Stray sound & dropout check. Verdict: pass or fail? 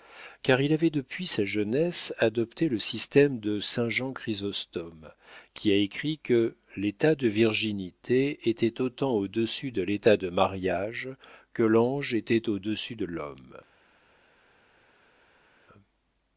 pass